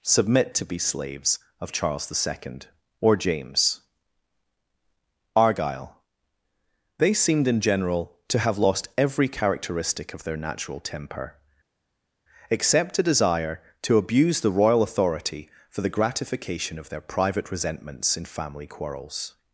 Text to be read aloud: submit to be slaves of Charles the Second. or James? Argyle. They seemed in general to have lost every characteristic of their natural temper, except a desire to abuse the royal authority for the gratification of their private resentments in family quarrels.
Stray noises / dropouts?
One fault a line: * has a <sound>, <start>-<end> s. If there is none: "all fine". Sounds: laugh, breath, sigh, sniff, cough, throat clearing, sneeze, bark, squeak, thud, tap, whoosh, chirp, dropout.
all fine